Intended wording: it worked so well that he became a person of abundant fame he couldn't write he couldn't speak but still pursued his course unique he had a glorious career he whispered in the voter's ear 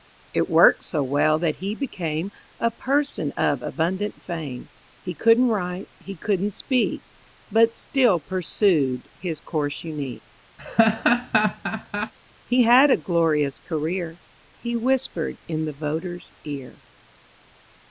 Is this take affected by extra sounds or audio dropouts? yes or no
yes